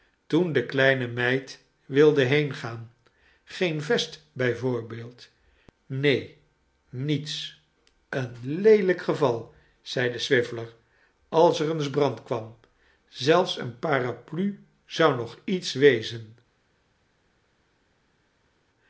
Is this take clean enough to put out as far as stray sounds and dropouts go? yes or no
yes